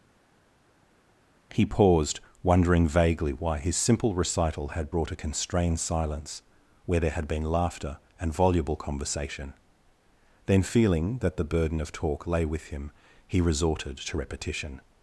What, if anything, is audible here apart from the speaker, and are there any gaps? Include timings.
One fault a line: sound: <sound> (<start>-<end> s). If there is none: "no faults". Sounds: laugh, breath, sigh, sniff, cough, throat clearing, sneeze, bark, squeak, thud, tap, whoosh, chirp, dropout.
no faults